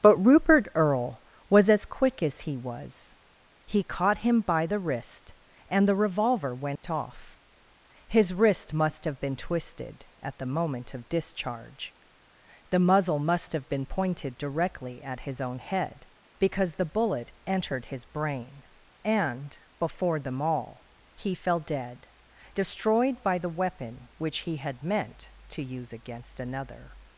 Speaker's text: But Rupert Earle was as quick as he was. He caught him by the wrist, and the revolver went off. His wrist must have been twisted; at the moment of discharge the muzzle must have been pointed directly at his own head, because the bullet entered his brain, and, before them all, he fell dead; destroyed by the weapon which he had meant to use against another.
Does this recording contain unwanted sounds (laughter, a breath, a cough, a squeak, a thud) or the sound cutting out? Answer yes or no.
yes